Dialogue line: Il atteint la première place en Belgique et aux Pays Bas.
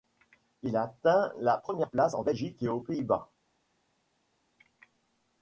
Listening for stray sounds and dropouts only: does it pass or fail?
pass